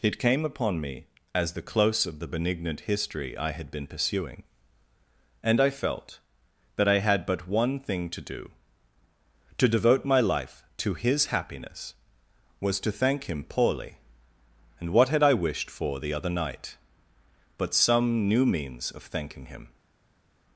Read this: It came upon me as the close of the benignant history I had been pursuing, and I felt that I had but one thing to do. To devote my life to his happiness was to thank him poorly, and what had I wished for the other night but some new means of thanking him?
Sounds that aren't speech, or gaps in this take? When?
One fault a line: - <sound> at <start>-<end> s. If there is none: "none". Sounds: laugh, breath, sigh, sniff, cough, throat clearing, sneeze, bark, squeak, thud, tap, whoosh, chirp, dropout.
none